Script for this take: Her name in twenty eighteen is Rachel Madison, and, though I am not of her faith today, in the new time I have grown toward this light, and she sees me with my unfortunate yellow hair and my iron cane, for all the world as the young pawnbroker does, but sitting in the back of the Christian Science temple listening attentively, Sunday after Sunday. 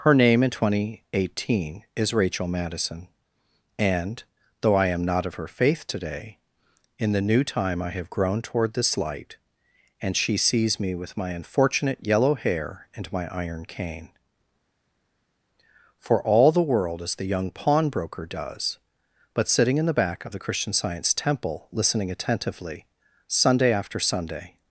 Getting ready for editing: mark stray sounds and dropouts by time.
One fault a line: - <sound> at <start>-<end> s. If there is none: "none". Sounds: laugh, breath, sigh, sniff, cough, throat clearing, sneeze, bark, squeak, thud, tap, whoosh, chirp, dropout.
none